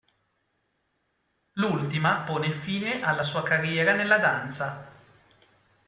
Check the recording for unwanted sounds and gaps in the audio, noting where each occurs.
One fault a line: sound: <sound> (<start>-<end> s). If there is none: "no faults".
no faults